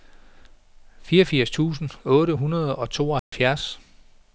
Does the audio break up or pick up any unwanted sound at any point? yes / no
yes